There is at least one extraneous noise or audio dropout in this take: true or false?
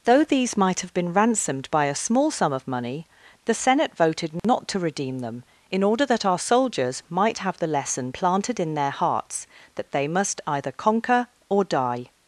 true